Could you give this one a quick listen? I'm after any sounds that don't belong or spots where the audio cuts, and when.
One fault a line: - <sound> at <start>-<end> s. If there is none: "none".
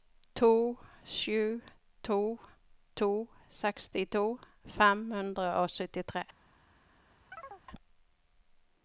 - chirp at 7.3-7.6 s